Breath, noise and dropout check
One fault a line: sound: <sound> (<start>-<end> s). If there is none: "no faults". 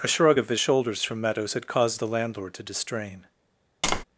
sound: tap (3.8-4.0 s)